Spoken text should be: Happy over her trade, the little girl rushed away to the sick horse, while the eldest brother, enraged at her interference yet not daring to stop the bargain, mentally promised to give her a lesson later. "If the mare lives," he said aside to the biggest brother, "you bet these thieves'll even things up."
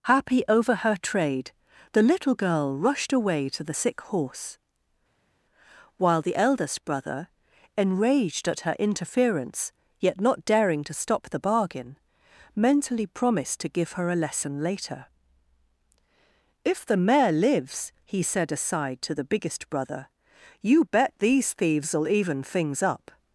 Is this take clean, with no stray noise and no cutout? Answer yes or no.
yes